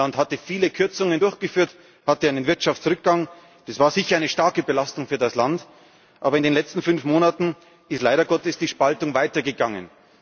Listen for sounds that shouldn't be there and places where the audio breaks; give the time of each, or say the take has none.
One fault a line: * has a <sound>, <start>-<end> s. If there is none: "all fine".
all fine